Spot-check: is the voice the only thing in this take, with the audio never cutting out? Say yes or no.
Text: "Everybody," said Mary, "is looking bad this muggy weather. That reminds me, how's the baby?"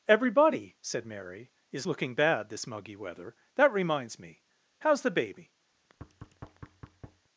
no